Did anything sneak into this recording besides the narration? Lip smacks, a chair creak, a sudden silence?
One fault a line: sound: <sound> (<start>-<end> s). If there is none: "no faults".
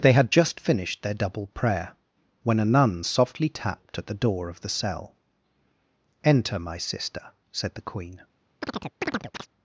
sound: chirp (8.6-9.5 s)